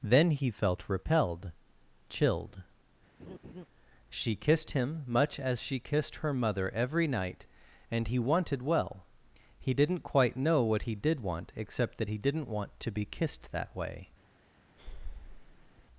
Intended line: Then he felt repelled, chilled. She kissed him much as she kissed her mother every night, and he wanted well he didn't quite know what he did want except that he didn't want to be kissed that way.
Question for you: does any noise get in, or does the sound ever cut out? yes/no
yes